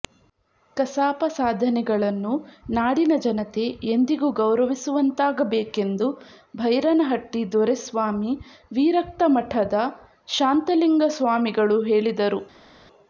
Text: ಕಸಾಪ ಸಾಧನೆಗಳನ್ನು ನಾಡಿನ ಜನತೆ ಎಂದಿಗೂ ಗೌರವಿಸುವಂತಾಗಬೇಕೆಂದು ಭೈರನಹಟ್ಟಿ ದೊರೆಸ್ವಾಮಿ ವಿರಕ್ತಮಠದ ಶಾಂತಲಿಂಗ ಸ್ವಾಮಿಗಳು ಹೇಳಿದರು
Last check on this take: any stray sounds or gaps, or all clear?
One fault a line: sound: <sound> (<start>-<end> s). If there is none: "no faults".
no faults